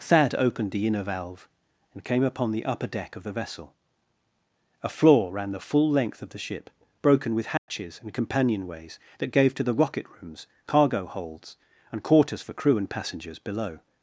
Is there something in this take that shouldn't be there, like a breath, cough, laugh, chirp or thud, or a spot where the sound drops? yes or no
yes